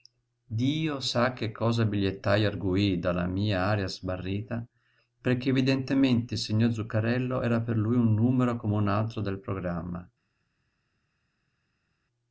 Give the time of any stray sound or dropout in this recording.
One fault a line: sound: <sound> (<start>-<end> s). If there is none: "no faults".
no faults